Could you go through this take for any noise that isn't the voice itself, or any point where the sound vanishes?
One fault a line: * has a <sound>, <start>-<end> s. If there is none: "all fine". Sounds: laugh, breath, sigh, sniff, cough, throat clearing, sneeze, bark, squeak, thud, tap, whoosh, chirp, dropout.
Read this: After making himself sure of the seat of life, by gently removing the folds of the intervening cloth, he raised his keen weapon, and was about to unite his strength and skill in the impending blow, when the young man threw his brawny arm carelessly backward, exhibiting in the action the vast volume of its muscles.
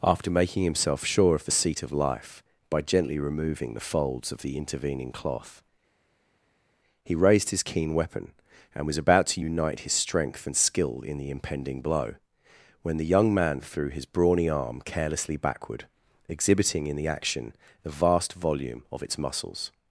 all fine